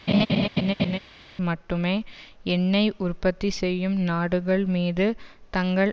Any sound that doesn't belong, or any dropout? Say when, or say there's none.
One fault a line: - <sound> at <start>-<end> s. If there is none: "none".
- laugh at 0.1-1.0 s